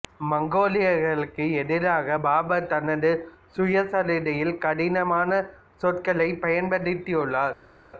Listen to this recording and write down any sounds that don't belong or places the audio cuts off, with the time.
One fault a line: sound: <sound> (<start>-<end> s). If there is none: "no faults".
no faults